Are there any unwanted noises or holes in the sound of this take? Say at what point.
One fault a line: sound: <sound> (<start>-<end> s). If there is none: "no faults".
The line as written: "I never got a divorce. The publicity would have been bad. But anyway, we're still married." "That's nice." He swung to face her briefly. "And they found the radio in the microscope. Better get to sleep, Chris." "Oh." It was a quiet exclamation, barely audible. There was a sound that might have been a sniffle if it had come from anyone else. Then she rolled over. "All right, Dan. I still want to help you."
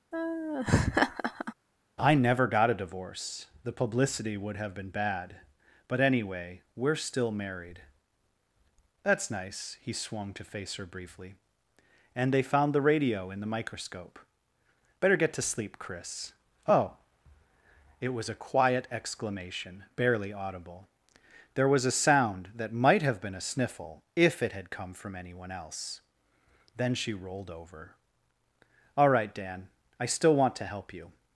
sound: laugh (0.1-1.5 s)